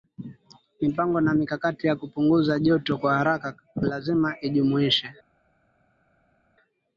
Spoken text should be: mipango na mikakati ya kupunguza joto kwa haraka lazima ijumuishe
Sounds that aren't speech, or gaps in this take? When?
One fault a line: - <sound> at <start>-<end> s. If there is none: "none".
none